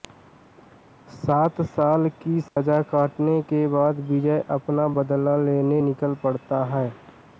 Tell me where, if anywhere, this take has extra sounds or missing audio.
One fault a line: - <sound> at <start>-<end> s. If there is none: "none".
- dropout at 2.5-2.6 s